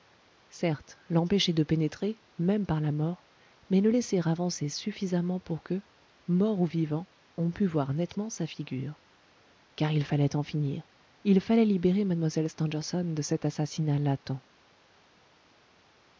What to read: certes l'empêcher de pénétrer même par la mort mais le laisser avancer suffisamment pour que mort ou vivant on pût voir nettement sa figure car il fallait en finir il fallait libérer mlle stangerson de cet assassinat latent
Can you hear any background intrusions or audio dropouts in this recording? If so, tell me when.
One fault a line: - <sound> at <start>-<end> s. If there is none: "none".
none